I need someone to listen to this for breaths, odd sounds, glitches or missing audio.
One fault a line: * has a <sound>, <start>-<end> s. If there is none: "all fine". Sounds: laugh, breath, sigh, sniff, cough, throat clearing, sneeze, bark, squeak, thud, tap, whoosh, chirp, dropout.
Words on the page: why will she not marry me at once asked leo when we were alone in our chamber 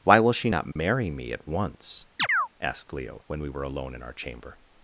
* has a dropout, 0.7-0.8 s
* has a chirp, 2.2-2.5 s